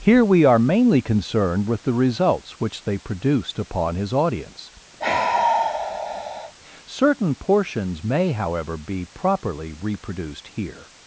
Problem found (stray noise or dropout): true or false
true